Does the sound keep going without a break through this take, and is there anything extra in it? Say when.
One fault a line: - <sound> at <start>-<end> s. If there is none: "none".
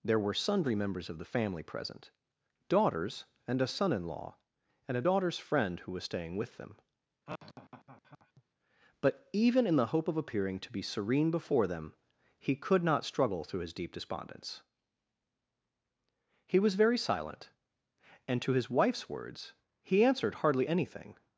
- laugh at 7.3-8.4 s